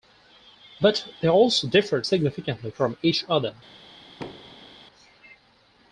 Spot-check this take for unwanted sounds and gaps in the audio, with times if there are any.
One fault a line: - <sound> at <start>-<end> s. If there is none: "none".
- thud at 4.2-4.8 s